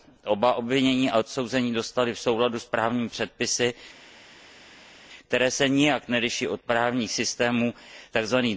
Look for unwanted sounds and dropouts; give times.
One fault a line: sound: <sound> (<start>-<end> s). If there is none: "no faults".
no faults